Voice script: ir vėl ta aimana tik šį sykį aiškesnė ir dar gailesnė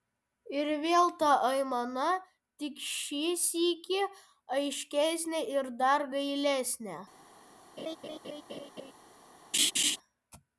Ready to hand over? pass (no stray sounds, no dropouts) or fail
fail